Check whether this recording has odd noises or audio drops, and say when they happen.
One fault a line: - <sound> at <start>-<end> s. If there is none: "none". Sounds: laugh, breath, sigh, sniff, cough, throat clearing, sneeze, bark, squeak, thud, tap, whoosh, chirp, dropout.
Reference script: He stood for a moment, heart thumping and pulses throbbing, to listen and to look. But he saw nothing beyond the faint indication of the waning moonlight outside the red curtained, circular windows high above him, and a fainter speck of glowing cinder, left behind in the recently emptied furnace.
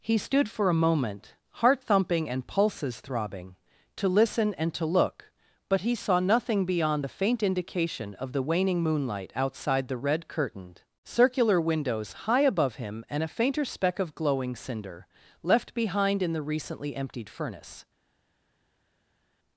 none